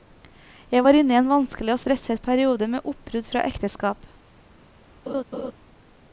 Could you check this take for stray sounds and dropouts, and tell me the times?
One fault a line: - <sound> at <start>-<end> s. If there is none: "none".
- laugh at 5.1-5.5 s